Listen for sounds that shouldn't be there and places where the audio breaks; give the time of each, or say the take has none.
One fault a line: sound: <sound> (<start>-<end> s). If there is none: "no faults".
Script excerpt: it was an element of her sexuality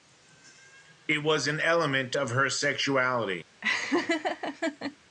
sound: laugh (3.6-5.0 s)